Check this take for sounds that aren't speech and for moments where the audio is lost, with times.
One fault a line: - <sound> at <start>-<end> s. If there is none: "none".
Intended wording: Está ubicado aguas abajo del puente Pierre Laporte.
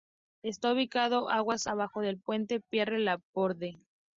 none